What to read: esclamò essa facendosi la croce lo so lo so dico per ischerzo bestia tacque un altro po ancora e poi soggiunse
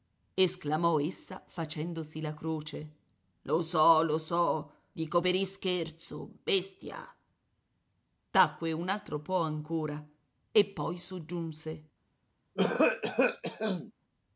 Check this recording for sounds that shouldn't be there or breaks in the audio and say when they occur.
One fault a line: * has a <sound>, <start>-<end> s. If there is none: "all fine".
* has a cough, 12.6-13.9 s